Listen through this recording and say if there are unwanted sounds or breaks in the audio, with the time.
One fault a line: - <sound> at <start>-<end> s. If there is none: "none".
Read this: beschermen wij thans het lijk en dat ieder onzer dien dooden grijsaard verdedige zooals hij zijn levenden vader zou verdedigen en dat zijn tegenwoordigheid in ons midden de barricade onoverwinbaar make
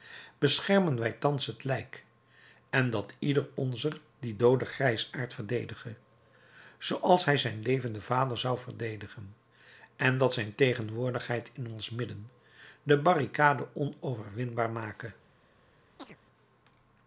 - chirp at 16.0-16.2 s